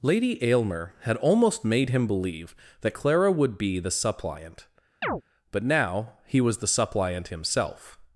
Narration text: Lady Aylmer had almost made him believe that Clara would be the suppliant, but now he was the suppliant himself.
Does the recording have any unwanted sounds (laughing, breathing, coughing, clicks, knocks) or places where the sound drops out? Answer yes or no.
yes